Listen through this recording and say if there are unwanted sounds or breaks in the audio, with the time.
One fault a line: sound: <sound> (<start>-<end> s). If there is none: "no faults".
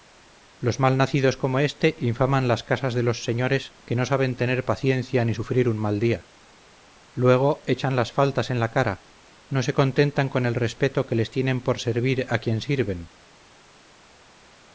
no faults